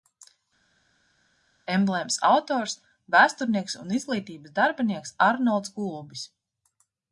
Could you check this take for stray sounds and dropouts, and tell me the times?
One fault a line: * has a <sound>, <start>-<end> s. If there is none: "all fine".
all fine